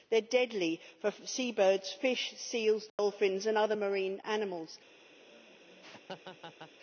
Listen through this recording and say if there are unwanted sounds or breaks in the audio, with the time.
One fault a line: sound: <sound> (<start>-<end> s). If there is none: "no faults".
sound: dropout (2.9-3.0 s)
sound: laugh (5.2-6.7 s)